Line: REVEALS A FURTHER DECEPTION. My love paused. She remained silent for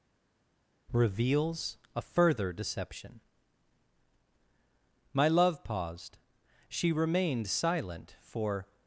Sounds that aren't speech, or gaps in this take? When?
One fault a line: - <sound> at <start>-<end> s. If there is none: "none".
none